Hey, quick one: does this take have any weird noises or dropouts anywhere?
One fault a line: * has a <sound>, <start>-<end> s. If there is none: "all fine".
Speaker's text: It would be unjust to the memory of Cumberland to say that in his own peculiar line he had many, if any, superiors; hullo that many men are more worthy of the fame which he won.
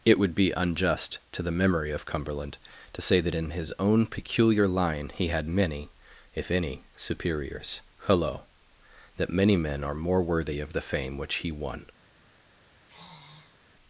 * has a sigh, 12.8-13.6 s